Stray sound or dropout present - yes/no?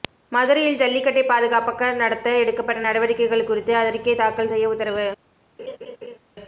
yes